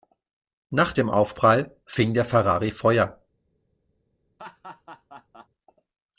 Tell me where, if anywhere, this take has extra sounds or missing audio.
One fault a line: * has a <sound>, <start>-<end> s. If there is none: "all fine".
* has a laugh, 4.4-5.5 s